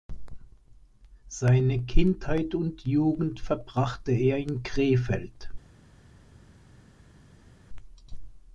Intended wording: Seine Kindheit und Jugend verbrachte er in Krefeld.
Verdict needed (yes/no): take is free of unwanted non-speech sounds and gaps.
yes